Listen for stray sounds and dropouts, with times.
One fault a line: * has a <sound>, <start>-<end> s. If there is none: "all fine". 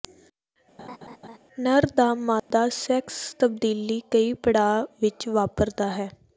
* has a laugh, 0.8-1.4 s
* has a dropout, 2.4-2.5 s